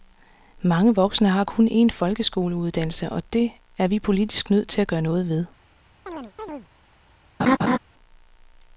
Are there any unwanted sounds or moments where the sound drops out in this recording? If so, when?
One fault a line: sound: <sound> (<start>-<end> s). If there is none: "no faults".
sound: chirp (6.1-6.7 s)
sound: laugh (7.4-7.8 s)